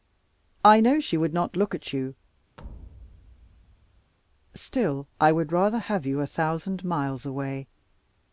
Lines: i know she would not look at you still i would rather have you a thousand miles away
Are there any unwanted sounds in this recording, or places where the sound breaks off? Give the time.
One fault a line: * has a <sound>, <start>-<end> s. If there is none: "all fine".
* has a thud, 2.6-4.1 s